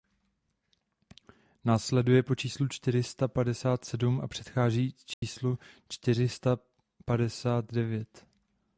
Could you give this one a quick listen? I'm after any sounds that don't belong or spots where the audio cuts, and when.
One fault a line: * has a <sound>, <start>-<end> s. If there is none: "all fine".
* has a dropout, 5.1-5.2 s